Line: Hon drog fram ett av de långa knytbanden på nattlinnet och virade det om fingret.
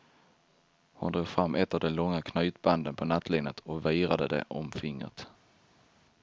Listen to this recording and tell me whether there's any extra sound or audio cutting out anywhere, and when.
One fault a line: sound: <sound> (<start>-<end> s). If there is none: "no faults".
no faults